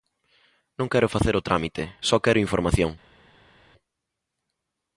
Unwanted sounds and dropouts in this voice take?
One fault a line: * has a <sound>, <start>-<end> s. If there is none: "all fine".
all fine